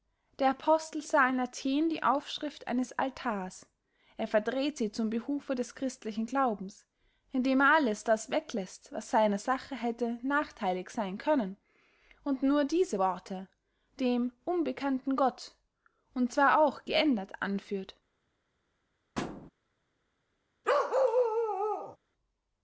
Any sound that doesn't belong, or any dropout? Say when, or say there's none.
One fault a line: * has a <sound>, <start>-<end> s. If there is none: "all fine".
* has a thud, 19.2-19.5 s
* has a bark, 20.6-22.0 s